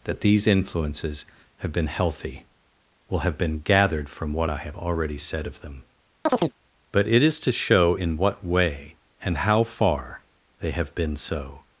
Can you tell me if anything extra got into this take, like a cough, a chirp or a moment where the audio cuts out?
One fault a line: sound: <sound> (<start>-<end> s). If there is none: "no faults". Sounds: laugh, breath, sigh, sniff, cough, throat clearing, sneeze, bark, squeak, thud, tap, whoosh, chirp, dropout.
sound: chirp (6.3-6.5 s)